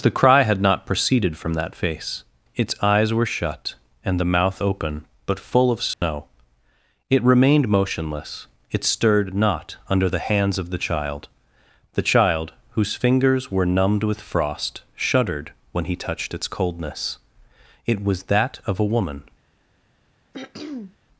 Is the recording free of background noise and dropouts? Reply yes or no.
no